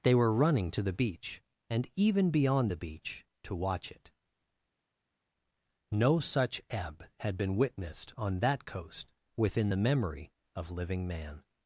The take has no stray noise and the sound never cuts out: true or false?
true